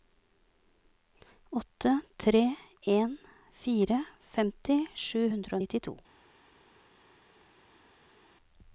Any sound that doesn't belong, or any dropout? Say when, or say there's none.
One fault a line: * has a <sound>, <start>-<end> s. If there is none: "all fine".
all fine